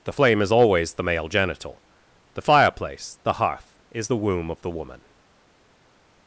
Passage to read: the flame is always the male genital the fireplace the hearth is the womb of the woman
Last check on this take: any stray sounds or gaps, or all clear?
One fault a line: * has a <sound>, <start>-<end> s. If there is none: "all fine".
all fine